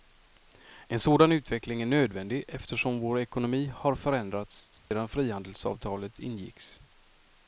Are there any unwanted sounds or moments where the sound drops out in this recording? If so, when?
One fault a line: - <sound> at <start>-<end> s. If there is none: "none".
- dropout at 4.8-4.9 s